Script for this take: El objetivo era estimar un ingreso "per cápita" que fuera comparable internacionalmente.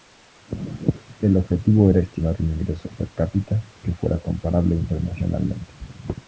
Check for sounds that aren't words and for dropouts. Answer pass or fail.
pass